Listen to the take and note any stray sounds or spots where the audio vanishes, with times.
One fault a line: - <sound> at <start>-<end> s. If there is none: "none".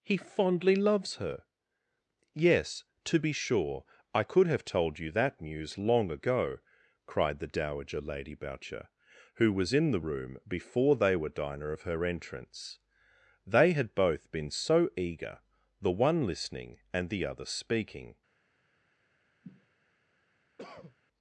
- sniff at 19.4-19.7 s
- cough at 20.6-21.0 s